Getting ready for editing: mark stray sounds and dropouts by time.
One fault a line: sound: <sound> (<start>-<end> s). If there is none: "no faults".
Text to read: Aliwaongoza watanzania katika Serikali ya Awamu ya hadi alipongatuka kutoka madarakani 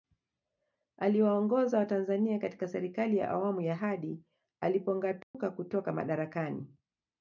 sound: dropout (5.2-5.3 s)